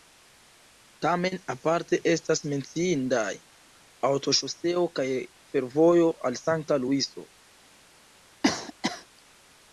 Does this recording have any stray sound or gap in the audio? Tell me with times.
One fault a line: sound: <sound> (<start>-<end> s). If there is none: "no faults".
sound: cough (8.4-9.1 s)